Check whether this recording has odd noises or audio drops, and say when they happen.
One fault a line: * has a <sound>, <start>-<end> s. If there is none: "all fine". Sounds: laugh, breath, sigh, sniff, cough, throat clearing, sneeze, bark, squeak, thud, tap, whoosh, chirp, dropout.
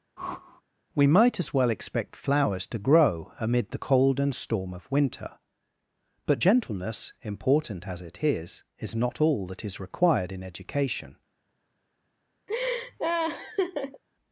* has a whoosh, 0.2-0.6 s
* has a laugh, 12.5-14.0 s